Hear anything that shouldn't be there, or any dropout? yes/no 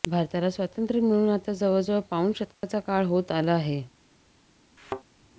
yes